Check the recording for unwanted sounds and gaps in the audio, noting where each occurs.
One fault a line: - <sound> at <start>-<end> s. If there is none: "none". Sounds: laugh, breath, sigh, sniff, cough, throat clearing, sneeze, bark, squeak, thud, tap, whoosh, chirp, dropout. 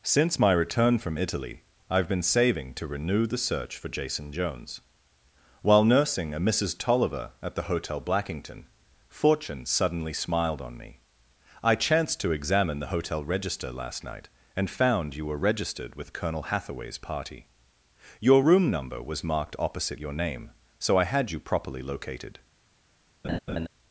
- laugh at 23.2-23.7 s